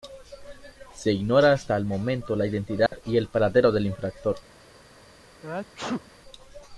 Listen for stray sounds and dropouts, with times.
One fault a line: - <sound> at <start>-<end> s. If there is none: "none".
- dropout at 2.9-2.9 s
- sneeze at 5.4-6.1 s